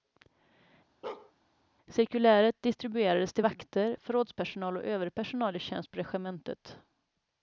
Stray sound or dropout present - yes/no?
yes